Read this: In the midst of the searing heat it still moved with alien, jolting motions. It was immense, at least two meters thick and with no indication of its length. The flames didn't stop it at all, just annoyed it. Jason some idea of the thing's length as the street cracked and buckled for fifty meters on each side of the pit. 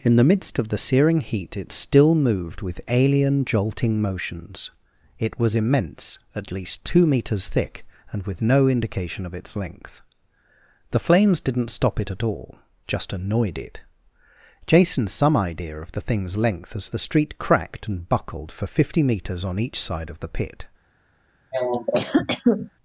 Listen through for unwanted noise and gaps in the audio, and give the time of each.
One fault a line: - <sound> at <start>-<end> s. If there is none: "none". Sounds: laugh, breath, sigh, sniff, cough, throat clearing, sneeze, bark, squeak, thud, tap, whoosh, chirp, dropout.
- cough at 21.5-22.7 s